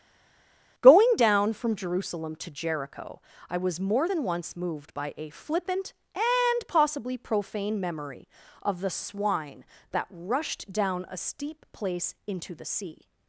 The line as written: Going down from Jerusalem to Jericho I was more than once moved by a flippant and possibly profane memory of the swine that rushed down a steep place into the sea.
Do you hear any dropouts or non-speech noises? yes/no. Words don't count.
no